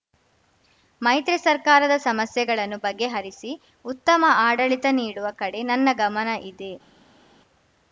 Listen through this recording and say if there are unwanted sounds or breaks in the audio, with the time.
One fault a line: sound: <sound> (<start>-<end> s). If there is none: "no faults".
no faults